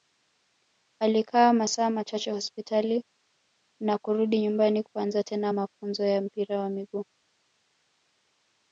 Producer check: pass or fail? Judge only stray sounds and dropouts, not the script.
pass